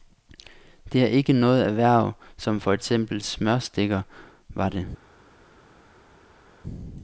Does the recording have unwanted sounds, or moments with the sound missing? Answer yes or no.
no